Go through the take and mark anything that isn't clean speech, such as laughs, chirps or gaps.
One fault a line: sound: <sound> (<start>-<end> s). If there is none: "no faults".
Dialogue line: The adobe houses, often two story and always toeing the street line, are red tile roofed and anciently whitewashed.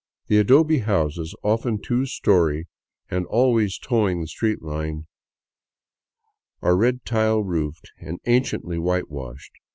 no faults